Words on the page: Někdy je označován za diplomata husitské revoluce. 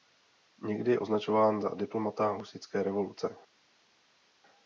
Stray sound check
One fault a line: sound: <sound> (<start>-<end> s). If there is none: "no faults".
no faults